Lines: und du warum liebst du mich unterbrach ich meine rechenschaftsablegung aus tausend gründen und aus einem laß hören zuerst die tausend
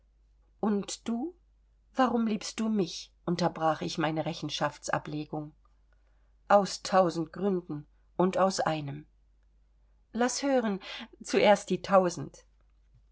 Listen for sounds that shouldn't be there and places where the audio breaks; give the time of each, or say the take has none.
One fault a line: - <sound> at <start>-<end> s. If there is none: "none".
none